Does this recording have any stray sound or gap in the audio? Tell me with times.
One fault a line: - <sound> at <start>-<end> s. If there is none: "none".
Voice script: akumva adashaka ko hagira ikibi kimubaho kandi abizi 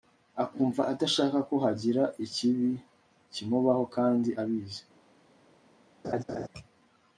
- laugh at 6.0-6.5 s